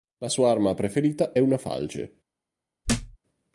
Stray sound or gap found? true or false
true